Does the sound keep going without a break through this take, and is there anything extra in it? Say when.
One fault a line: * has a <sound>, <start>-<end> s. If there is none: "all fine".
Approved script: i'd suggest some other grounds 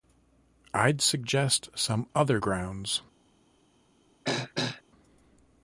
* has a throat clearing, 4.2-4.8 s